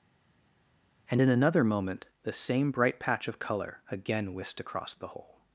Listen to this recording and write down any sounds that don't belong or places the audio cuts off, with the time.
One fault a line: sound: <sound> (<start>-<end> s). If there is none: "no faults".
no faults